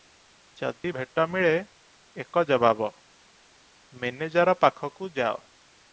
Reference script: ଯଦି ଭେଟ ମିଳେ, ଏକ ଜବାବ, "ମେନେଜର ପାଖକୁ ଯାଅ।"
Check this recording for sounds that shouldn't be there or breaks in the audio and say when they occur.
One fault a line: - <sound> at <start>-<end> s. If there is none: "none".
- dropout at 0.8-0.8 s